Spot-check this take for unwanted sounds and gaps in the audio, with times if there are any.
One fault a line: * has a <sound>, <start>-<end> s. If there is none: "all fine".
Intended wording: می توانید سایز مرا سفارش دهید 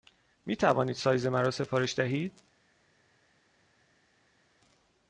all fine